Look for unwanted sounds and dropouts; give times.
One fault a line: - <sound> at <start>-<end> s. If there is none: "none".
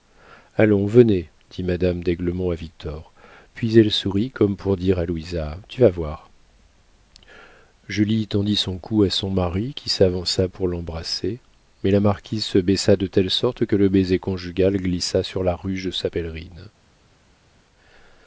none